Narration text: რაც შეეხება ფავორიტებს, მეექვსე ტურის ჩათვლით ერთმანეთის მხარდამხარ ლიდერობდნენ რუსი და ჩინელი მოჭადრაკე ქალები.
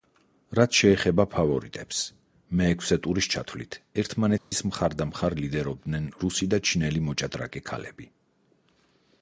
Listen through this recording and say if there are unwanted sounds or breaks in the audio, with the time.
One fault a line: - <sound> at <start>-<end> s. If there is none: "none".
- dropout at 4.4-4.5 s